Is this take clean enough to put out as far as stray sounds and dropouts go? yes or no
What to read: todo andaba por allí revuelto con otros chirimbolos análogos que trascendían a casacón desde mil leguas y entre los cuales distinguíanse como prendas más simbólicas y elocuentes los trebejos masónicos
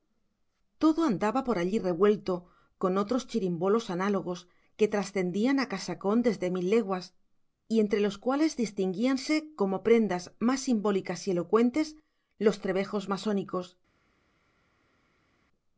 yes